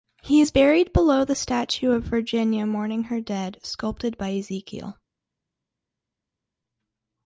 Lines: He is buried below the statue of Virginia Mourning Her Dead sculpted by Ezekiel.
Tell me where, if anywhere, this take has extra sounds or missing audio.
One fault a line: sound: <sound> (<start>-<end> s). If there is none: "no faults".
no faults